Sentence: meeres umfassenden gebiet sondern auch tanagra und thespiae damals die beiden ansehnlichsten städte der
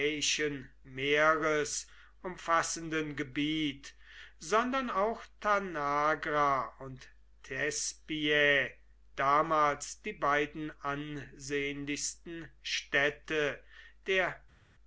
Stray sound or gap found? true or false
false